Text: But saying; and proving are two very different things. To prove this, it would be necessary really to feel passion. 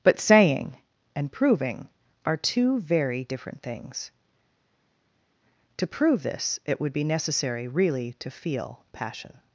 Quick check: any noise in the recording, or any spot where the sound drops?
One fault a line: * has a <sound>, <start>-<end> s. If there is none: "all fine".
all fine